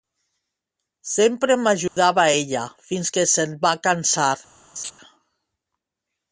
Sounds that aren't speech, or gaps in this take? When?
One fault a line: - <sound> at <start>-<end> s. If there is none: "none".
- dropout at 1.9-2.0 s
- laugh at 4.8-4.9 s